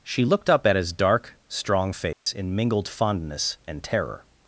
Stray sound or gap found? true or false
true